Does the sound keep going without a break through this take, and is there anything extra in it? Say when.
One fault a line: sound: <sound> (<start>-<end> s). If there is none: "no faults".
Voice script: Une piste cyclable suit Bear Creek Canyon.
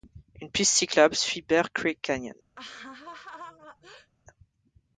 sound: laugh (2.5-4.1 s)